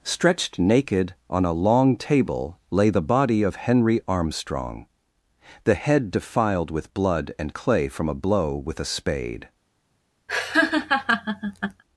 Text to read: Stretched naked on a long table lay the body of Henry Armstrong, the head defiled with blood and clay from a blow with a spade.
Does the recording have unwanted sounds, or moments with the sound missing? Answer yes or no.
yes